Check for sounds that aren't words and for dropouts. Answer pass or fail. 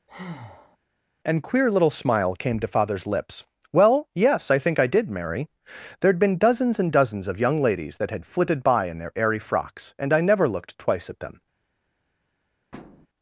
fail